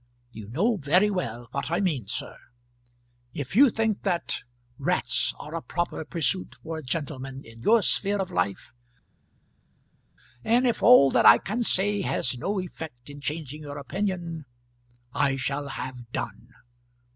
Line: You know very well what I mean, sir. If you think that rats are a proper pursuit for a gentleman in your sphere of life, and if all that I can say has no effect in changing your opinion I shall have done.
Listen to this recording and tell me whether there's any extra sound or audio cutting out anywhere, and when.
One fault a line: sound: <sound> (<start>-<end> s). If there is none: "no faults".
no faults